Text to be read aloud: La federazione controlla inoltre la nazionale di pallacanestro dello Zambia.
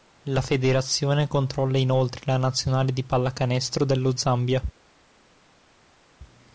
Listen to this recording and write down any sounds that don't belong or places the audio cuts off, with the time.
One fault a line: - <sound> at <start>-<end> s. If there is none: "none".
none